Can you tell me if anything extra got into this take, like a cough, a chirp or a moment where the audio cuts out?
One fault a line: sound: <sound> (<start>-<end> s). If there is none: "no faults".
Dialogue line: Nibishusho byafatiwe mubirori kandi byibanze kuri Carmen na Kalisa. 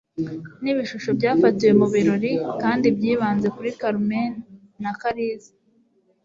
no faults